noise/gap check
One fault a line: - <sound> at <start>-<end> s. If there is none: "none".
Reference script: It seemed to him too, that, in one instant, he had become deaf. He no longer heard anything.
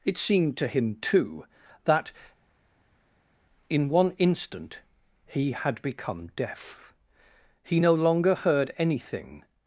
none